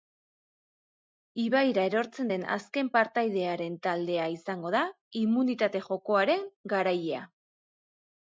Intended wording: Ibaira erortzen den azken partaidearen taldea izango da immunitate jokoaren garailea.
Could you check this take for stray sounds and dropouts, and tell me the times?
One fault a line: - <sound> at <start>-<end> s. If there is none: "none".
none